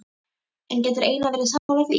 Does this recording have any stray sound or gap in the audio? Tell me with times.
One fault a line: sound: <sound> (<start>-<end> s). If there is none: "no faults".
sound: dropout (1.6-1.7 s)